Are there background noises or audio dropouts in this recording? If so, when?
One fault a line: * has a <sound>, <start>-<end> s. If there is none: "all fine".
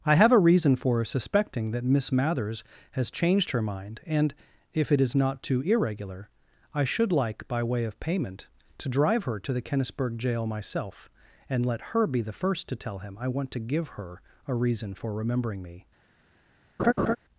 * has a laugh, 16.8-17.2 s